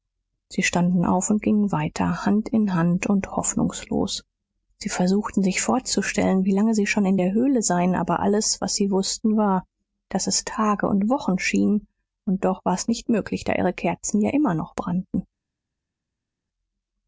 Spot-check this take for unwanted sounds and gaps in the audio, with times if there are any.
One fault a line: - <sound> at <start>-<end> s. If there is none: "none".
none